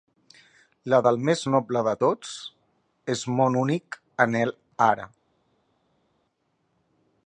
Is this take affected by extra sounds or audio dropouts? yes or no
no